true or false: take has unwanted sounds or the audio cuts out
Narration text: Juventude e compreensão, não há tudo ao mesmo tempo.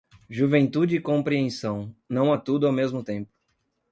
false